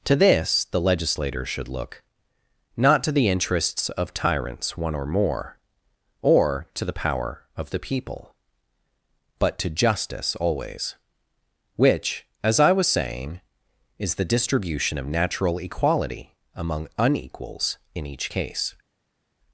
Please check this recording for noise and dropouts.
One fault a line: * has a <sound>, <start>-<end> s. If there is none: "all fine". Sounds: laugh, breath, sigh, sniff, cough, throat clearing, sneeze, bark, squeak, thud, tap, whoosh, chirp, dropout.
all fine